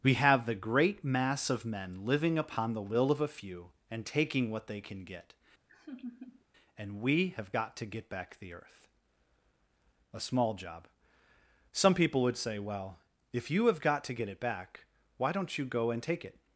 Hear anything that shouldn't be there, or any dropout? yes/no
yes